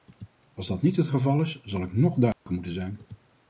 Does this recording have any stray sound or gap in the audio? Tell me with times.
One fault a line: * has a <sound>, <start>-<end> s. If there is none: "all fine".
* has a dropout, 2.3-2.5 s